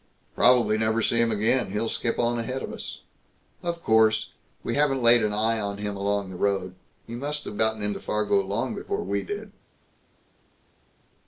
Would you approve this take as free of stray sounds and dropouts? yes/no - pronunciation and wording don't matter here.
yes